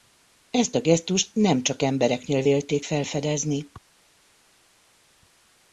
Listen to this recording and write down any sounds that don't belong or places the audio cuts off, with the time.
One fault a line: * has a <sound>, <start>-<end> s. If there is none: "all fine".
all fine